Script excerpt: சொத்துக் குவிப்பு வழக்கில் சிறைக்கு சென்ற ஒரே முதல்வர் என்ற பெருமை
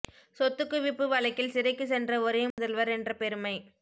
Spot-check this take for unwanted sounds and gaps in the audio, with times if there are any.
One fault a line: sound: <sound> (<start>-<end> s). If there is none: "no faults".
sound: dropout (2.5-2.6 s)